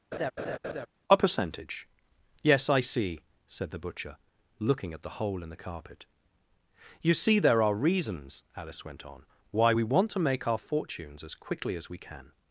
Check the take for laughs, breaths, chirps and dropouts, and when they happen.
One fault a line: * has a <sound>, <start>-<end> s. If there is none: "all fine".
* has a laugh, 0.1-0.9 s